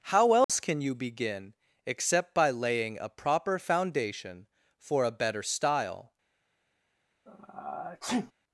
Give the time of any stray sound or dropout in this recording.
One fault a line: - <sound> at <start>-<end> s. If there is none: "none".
- dropout at 0.4-0.5 s
- sneeze at 7.3-8.3 s